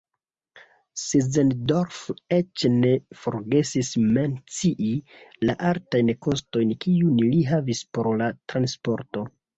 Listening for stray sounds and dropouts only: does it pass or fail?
pass